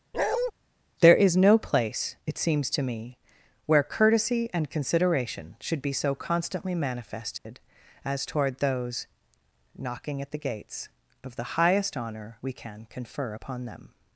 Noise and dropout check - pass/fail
fail